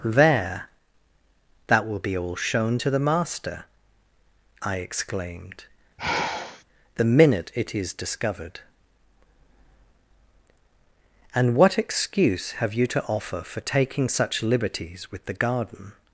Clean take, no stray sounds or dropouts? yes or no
no